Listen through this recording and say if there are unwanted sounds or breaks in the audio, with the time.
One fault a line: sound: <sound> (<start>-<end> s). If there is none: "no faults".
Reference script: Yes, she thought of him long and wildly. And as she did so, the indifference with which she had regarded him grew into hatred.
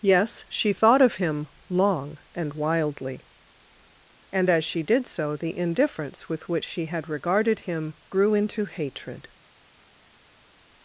no faults